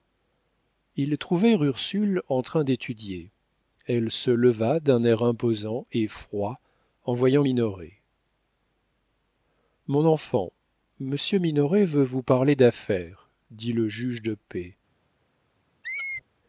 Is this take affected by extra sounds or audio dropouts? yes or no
yes